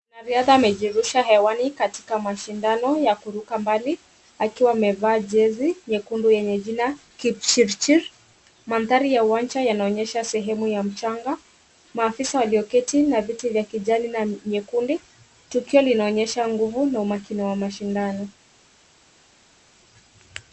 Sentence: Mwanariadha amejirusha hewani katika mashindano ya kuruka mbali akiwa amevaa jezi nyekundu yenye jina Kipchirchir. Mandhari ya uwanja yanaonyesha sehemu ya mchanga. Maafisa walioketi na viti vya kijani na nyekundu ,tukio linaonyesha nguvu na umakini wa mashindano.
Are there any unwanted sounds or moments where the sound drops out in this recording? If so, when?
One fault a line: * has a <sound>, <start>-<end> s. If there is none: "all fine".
all fine